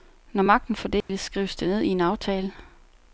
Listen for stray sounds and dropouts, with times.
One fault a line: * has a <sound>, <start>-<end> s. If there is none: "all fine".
* has a dropout, 1.0-1.1 s